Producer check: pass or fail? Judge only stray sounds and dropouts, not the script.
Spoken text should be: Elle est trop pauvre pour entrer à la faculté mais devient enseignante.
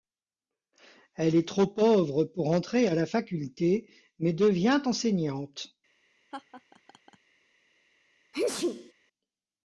fail